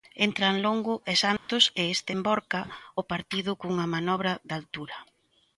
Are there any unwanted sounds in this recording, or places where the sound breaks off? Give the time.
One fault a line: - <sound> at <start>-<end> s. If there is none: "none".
- dropout at 1.4-1.5 s